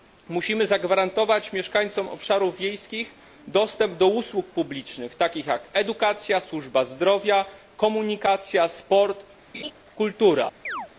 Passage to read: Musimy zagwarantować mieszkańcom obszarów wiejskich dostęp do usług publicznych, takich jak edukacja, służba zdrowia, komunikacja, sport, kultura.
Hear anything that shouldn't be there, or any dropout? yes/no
yes